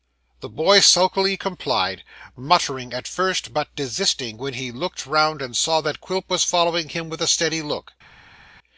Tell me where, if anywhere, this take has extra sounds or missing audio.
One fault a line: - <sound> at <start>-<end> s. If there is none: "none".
none